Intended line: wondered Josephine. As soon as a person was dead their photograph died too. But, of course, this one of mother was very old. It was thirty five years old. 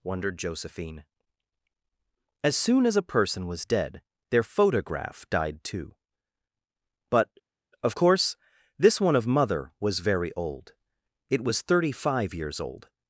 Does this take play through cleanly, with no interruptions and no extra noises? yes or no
yes